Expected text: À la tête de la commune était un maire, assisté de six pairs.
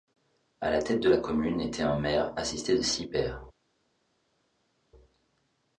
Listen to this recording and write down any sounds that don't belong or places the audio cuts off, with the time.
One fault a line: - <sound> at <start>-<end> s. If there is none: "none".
none